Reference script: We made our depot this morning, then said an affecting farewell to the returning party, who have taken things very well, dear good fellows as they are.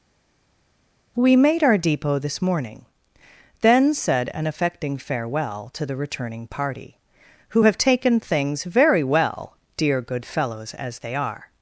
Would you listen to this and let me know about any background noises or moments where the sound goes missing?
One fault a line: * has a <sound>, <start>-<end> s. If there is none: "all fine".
all fine